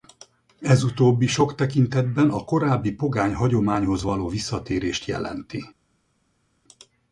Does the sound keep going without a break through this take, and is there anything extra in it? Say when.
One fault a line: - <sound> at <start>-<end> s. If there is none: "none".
none